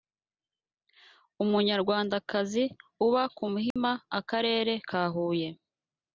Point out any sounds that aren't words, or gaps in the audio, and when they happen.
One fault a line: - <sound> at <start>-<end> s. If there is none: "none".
- dropout at 3.7-3.8 s